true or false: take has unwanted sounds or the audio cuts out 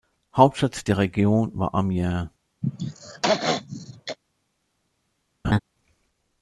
true